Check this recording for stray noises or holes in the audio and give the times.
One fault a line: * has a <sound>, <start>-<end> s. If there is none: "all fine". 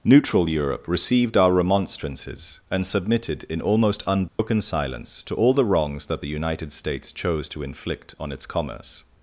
* has a dropout, 4.3-4.4 s